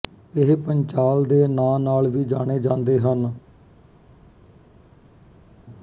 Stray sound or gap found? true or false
false